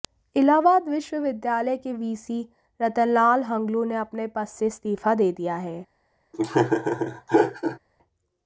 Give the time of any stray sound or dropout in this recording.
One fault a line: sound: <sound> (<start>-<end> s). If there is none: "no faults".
sound: laugh (6.3-7.8 s)